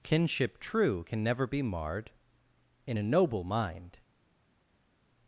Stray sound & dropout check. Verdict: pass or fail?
pass